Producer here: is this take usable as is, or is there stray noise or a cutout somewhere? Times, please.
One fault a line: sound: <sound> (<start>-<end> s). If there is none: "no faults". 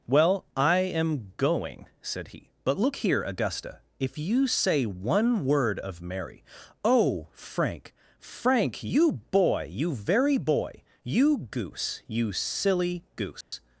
sound: dropout (13.4-13.5 s)